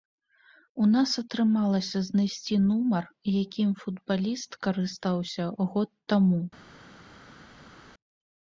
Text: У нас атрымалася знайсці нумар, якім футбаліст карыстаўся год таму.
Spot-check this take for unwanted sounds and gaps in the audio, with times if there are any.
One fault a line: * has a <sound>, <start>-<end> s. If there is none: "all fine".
all fine